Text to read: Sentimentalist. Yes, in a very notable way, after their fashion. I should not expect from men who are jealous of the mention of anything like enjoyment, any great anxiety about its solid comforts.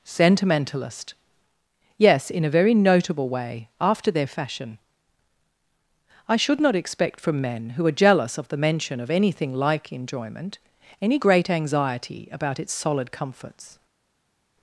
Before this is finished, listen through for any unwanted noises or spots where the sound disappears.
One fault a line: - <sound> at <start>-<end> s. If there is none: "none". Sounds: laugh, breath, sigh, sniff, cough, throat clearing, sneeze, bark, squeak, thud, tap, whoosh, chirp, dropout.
none